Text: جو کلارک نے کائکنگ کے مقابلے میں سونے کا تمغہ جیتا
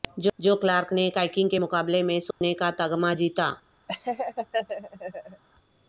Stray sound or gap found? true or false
true